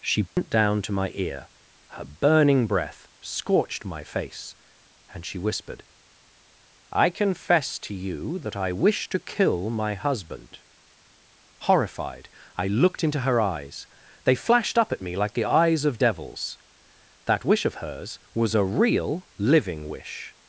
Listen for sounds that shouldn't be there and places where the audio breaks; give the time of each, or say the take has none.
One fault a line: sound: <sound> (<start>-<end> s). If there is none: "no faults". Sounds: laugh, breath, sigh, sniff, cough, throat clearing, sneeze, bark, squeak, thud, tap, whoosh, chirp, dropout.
sound: dropout (0.3-0.4 s)